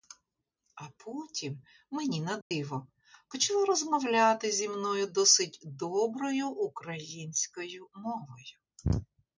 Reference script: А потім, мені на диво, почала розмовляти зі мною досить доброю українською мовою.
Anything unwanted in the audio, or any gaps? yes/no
yes